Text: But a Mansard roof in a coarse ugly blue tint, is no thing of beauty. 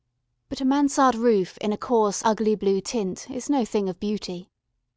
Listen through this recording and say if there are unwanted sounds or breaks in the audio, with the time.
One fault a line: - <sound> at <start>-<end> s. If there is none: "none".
none